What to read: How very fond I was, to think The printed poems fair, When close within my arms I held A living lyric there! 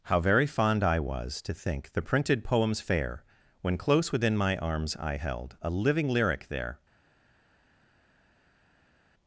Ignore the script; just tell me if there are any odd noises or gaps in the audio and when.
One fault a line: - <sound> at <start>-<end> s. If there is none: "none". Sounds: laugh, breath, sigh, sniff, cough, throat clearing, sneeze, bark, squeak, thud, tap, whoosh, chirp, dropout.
none